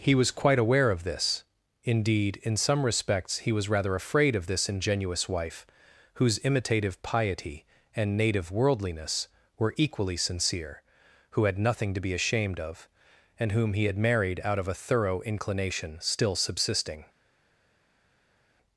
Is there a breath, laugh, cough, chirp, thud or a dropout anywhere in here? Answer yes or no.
no